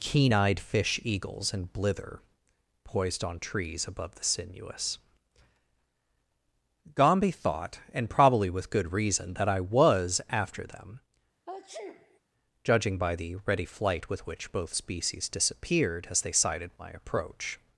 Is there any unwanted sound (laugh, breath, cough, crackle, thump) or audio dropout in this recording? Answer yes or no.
yes